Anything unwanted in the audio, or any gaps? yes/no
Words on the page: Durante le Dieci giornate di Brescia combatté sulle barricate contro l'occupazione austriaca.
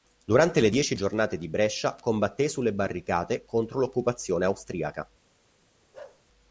yes